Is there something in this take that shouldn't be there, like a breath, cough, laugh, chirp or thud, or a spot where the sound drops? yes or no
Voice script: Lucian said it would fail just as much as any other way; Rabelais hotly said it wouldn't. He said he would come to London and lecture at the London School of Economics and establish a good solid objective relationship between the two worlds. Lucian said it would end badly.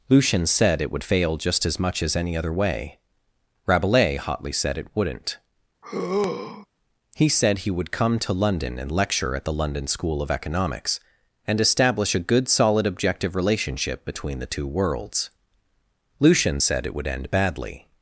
yes